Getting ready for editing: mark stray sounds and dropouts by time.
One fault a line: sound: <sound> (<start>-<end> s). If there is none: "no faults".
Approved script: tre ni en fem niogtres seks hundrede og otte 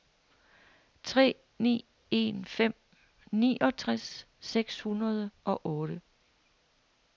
no faults